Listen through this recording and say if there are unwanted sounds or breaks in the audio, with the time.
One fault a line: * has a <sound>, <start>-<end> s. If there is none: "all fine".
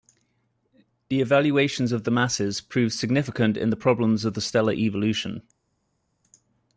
all fine